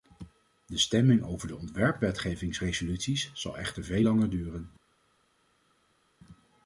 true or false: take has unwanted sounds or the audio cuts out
false